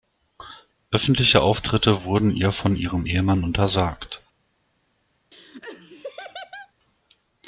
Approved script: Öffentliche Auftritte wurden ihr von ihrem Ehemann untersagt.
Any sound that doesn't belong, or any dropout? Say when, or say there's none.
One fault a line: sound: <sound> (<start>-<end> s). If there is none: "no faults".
sound: laugh (5.3-6.7 s)